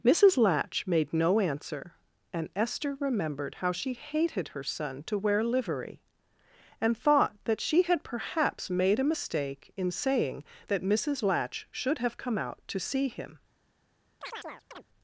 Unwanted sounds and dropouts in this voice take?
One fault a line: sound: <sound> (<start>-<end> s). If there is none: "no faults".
sound: chirp (14.2-14.8 s)